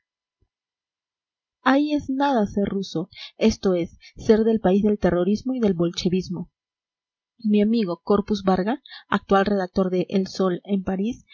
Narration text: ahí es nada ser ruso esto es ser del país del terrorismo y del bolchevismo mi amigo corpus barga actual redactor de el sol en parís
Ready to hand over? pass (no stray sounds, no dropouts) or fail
pass